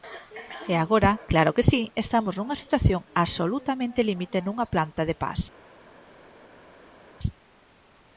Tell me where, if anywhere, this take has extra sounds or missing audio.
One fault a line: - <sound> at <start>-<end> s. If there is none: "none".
none